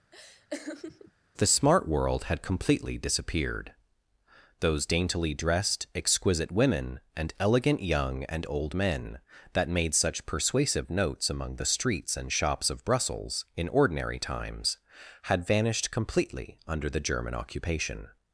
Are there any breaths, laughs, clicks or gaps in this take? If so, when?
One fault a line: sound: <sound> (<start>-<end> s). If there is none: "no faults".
sound: laugh (0.1-1.1 s)